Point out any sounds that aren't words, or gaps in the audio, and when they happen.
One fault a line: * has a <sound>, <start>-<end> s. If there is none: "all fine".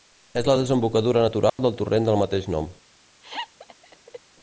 * has a dropout, 1.5-1.6 s
* has a laugh, 3.2-4.2 s